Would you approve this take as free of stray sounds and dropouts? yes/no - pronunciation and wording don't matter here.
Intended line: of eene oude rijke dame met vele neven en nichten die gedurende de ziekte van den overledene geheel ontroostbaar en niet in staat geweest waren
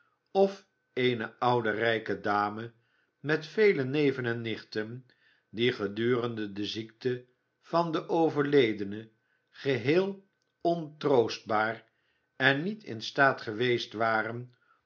yes